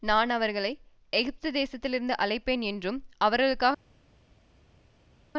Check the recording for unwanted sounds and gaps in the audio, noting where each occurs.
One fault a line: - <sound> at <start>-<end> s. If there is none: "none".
none